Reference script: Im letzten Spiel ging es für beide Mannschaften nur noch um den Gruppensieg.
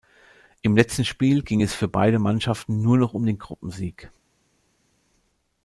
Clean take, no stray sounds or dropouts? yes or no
yes